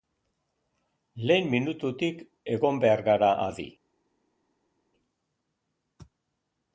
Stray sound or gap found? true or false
false